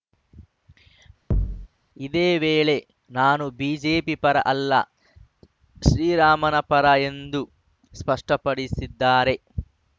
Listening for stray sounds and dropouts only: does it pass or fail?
fail